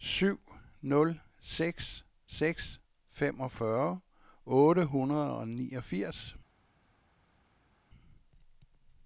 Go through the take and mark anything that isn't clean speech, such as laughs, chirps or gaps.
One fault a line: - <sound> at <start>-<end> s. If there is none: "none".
none